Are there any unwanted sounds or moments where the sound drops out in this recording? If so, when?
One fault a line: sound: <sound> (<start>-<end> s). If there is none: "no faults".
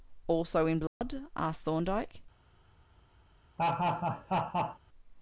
sound: dropout (0.9-1.0 s)
sound: laugh (3.6-4.8 s)